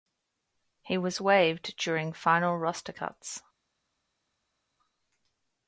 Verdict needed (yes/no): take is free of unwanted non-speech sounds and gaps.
yes